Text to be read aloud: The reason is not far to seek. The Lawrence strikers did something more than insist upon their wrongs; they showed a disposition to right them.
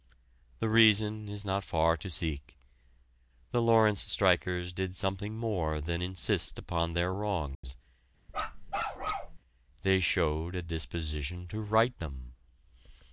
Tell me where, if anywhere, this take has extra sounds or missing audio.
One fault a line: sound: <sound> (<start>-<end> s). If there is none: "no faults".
sound: dropout (7.5-7.6 s)
sound: bark (8.3-9.4 s)